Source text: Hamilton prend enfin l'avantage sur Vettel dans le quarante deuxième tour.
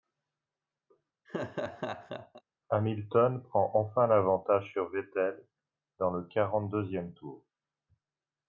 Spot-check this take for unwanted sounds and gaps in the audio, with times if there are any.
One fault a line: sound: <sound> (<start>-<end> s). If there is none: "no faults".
sound: laugh (1.2-2.4 s)